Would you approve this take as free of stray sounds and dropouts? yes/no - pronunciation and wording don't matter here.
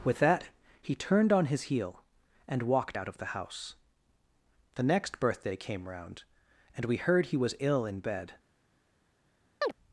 no